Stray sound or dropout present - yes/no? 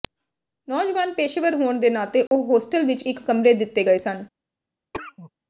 yes